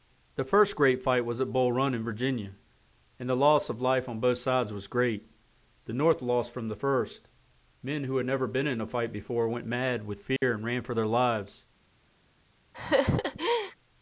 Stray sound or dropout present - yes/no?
yes